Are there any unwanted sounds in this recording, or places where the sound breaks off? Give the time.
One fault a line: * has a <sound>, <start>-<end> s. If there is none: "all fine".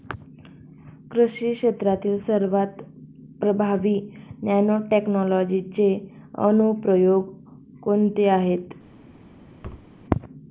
* has a thud, 9.6-9.9 s